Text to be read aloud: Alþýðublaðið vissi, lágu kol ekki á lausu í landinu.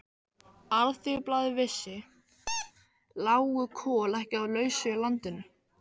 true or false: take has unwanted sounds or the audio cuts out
true